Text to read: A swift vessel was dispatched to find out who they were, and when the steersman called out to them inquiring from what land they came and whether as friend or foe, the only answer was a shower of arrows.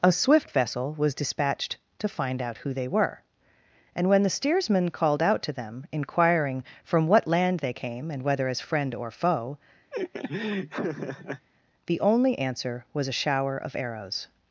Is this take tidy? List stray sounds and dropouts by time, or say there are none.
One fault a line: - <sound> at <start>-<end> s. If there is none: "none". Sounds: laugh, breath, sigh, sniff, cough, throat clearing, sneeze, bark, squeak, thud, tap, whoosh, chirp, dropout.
- laugh at 9.9-11.5 s